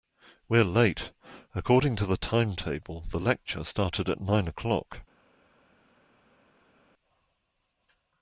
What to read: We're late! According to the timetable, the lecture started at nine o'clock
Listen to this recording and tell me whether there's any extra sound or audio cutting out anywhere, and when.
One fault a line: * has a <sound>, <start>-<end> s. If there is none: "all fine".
all fine